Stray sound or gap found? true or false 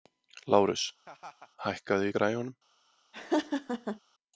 true